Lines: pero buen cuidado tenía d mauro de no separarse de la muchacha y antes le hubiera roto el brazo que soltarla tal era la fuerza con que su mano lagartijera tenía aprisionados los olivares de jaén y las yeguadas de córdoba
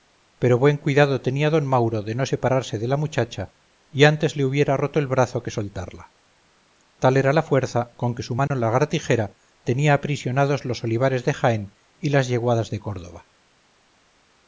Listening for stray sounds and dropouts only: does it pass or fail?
fail